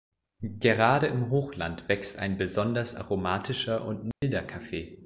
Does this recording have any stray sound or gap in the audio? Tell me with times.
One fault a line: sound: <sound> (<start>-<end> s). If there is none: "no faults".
sound: dropout (4.1-4.2 s)